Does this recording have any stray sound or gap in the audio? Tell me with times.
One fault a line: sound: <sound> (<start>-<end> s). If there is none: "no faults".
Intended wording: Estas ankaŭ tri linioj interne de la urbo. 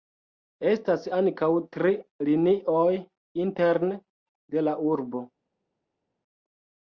no faults